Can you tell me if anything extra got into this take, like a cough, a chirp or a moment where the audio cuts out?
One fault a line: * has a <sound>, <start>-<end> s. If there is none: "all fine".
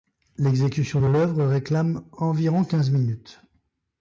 all fine